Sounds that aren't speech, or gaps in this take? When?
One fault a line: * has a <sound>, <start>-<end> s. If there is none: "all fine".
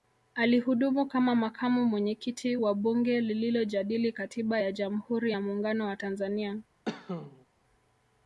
* has a cough, 6.9-7.5 s